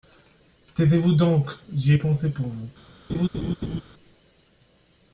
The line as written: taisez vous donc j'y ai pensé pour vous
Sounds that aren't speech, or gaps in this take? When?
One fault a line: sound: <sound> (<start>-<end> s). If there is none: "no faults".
sound: laugh (3.1-3.8 s)